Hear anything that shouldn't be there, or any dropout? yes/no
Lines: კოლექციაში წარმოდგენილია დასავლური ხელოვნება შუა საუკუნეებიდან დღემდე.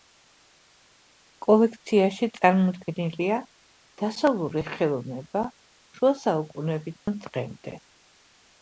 yes